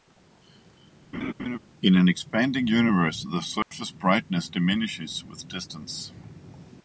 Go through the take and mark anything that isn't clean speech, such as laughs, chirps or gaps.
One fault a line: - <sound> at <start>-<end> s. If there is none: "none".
- laugh at 1.1-1.6 s
- dropout at 3.6-3.7 s